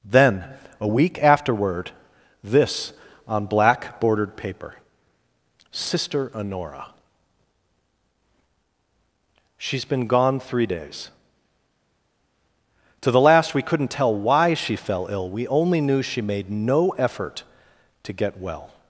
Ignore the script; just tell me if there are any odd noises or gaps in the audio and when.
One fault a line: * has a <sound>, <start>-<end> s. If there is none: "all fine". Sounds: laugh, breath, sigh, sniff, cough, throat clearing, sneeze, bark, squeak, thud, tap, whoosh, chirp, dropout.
all fine